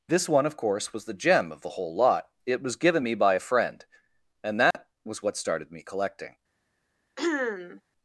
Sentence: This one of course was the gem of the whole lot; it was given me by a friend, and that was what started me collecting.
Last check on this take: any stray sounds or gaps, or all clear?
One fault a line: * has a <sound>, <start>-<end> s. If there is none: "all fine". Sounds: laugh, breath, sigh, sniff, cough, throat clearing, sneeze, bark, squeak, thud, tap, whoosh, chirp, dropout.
* has a dropout, 4.7-4.7 s
* has a throat clearing, 7.2-7.8 s